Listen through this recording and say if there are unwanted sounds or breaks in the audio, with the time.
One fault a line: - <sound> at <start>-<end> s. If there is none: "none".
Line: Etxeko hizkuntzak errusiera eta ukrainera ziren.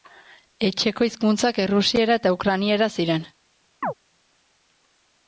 - chirp at 3.8-3.9 s